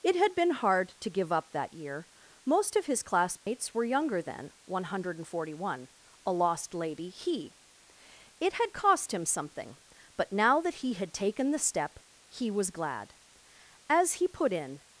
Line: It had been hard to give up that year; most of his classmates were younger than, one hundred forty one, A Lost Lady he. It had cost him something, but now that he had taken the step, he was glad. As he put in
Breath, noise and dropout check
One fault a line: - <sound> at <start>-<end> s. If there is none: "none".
- dropout at 3.4-3.5 s